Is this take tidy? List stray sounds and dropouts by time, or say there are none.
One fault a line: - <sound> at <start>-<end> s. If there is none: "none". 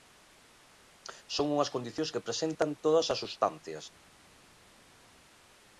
none